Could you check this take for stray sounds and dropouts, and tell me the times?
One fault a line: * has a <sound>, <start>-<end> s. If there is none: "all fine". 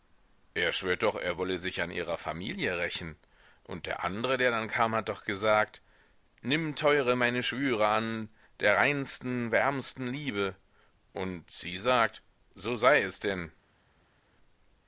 all fine